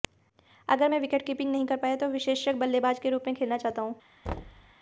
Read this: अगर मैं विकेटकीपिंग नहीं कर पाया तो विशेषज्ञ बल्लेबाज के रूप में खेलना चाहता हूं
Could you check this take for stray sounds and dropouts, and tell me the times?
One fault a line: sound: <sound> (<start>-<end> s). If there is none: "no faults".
sound: thud (4.2-4.7 s)